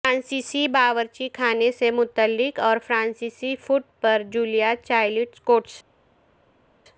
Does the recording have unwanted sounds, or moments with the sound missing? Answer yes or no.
no